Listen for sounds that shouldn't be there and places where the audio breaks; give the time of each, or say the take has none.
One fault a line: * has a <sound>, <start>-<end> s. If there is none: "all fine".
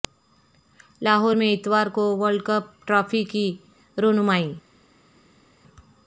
all fine